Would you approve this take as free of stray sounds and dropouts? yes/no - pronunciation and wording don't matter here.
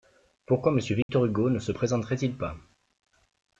no